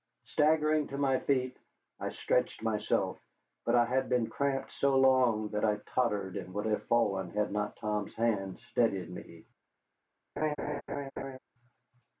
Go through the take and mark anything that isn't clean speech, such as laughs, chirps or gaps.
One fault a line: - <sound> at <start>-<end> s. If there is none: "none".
- laugh at 10.4-11.4 s